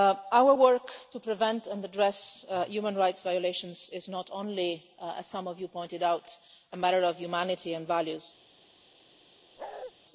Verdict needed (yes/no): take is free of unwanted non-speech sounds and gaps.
no